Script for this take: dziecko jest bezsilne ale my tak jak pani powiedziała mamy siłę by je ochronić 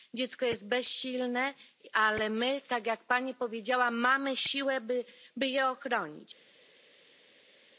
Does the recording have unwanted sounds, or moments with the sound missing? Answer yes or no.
no